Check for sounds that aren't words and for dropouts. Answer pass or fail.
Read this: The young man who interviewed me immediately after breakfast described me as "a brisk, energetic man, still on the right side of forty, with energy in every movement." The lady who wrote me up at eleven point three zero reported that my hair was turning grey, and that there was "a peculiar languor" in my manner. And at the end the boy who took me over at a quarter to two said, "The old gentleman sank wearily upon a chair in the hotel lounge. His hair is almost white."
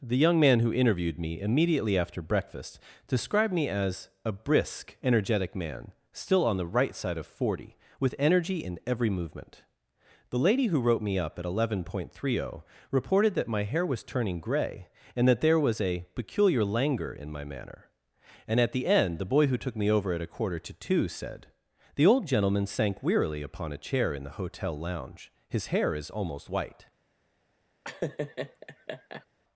fail